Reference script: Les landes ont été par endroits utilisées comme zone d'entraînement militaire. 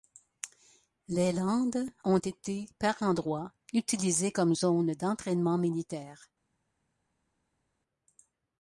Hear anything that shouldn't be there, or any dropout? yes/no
no